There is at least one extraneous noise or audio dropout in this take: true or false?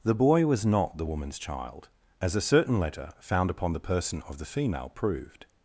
false